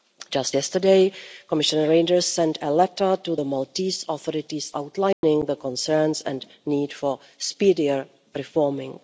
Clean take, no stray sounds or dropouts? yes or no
no